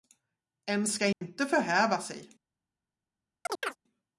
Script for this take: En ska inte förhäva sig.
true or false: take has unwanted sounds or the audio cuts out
true